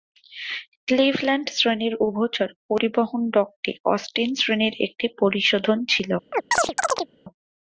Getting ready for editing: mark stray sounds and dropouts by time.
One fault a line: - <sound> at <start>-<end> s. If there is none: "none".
- chirp at 6.3-7.1 s